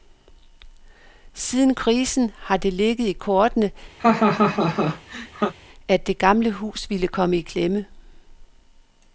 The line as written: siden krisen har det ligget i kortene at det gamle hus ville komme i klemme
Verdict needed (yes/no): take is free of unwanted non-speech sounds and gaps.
no